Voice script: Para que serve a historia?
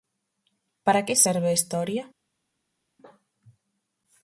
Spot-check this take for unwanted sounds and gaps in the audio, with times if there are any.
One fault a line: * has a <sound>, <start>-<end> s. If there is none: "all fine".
all fine